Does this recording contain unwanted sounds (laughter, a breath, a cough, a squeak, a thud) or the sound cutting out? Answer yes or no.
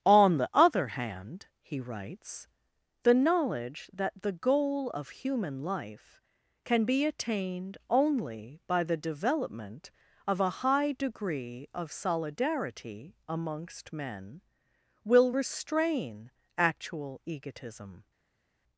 no